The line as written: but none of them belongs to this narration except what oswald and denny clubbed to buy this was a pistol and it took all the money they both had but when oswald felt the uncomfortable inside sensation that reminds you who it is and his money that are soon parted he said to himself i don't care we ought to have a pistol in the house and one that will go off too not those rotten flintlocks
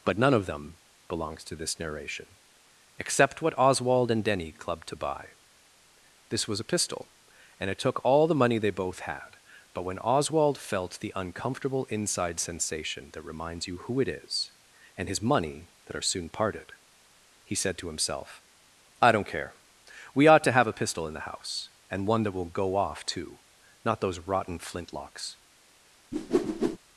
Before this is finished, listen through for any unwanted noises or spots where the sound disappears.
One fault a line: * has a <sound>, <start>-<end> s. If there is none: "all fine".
* has a whoosh, 26.1-26.8 s